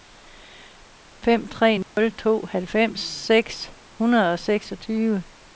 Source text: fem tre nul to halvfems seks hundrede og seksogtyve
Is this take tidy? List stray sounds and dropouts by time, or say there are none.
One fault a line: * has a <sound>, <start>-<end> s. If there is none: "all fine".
* has a dropout, 1.8-2.0 s